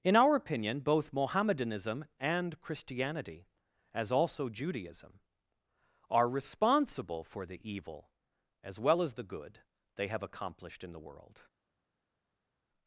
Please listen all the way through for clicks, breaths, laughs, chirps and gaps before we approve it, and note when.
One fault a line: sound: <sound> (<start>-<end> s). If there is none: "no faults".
no faults